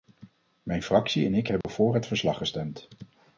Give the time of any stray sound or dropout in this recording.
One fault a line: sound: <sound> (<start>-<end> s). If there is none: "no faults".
sound: dropout (1.6-1.6 s)